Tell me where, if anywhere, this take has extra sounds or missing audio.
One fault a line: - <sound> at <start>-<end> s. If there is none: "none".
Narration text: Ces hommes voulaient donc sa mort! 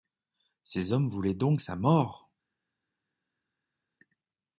none